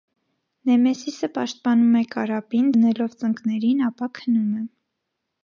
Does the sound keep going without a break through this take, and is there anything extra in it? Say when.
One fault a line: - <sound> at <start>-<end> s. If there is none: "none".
none